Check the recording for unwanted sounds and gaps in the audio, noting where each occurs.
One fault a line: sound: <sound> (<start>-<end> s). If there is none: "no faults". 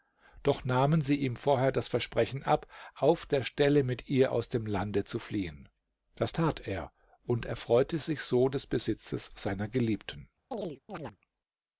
sound: chirp (10.5-11.2 s)